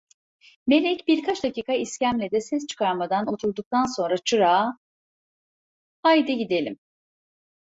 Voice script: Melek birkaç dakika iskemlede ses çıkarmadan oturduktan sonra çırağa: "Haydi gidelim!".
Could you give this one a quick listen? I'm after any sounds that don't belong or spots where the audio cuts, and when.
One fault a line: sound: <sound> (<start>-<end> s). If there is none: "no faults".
no faults